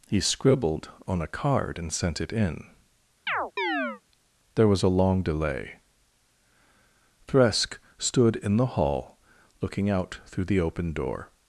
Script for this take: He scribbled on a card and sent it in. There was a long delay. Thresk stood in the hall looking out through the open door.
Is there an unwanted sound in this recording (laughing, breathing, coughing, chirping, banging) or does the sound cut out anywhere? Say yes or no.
yes